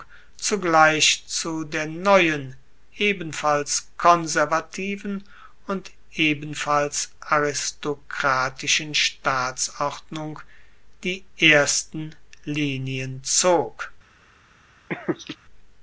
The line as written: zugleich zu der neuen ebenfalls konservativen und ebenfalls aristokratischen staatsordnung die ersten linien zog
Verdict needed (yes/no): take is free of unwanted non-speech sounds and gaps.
no